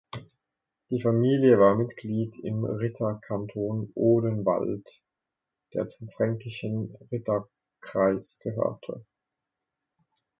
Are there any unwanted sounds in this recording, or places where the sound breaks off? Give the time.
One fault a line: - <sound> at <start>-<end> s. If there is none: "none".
none